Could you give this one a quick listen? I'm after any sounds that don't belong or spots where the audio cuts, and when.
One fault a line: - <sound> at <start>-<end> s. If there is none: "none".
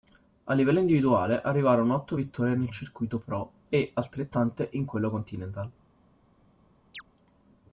- chirp at 6.9-7.0 s